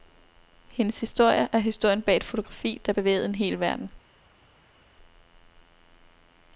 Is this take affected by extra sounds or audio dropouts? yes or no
no